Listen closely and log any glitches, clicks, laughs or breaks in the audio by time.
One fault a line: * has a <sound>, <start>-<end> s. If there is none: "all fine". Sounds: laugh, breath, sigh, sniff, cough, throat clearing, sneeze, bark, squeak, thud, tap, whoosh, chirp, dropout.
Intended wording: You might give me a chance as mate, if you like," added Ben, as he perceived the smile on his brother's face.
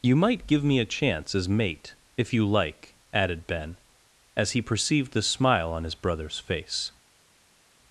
all fine